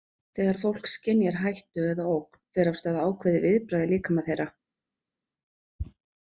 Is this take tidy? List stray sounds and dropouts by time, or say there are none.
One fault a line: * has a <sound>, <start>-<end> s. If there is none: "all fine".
all fine